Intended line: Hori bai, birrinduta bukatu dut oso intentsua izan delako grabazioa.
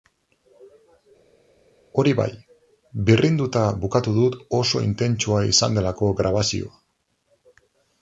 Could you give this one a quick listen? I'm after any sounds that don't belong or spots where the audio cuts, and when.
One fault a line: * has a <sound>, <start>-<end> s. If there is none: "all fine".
all fine